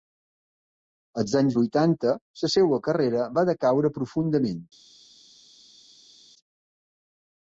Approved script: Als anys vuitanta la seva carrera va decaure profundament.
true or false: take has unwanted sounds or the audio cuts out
false